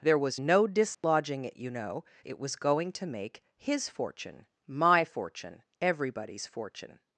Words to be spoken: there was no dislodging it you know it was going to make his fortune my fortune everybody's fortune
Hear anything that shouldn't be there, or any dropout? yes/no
yes